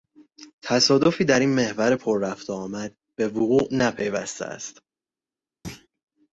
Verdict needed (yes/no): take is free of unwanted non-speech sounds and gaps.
no